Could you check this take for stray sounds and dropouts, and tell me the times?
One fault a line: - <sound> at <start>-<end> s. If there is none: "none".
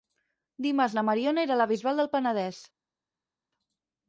none